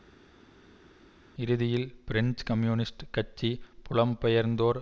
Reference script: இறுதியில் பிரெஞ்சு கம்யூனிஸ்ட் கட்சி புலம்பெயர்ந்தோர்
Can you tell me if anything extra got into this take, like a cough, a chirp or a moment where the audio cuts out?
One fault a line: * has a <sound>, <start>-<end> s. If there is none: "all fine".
all fine